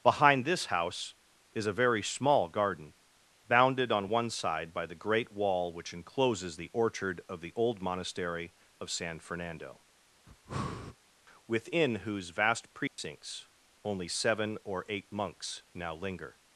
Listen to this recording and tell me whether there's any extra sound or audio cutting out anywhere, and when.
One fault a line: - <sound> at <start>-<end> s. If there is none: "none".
- breath at 10.3-11.0 s
- dropout at 12.9-13.0 s